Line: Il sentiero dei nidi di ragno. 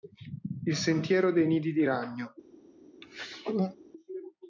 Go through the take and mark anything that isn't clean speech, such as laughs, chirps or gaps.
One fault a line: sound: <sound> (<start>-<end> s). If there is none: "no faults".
sound: throat clearing (3.0-3.8 s)